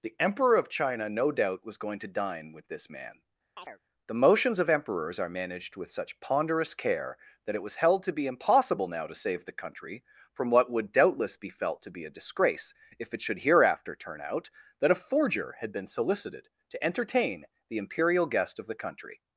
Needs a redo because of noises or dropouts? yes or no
yes